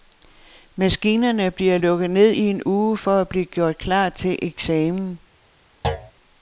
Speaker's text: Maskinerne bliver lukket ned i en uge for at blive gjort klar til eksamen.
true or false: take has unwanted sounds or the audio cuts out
true